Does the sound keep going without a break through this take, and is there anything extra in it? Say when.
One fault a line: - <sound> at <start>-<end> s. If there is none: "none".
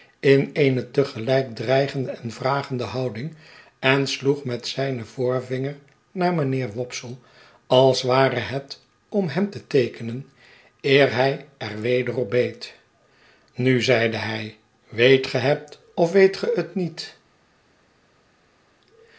none